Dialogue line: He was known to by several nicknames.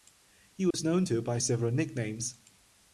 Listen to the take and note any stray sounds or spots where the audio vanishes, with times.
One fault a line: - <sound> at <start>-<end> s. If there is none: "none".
- dropout at 0.7-0.7 s